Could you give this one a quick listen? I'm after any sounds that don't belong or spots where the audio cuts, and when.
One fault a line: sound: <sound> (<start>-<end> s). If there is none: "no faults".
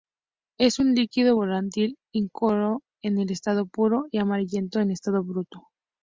no faults